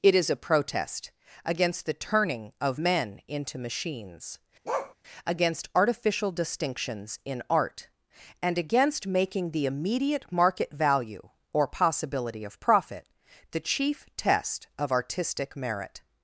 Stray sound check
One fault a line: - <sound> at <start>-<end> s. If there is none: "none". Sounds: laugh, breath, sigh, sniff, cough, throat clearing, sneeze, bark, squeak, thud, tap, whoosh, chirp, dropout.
- bark at 4.6-4.9 s